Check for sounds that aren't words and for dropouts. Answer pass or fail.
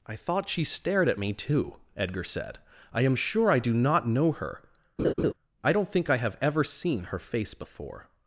fail